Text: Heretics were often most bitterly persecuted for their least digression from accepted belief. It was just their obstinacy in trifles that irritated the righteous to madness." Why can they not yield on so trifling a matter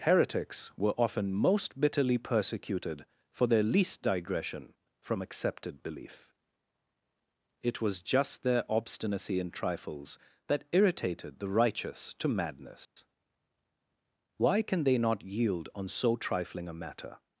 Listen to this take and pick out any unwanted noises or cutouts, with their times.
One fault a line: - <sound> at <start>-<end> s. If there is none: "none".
- dropout at 12.8-13.0 s